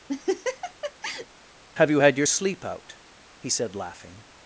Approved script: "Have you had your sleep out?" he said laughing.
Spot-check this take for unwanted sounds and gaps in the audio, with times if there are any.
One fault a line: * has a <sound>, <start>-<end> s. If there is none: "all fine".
* has a laugh, 0.1-1.3 s